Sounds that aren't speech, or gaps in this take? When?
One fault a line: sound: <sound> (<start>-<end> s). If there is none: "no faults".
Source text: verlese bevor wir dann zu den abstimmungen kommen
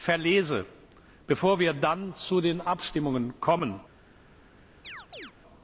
sound: chirp (4.8-5.3 s)